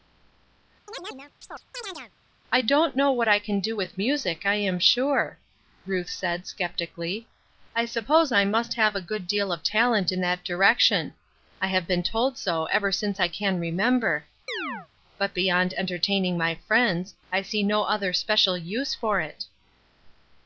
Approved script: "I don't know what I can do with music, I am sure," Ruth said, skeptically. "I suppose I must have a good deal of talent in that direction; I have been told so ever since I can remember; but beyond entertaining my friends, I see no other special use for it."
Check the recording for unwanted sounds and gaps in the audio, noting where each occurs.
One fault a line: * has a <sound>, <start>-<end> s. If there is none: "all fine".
* has a chirp, 0.9-2.1 s
* has a chirp, 14.5-14.9 s